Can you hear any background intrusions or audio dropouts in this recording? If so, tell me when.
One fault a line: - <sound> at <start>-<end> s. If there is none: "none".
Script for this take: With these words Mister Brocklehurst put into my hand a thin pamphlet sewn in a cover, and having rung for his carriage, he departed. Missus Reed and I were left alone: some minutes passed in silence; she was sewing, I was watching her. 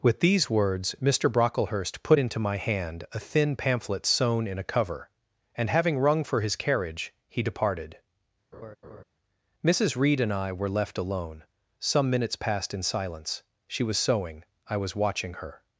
- laugh at 8.5-9.0 s